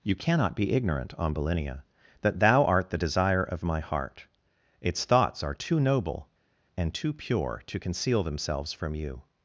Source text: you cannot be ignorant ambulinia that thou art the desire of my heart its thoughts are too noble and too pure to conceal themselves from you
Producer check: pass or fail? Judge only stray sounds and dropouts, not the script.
pass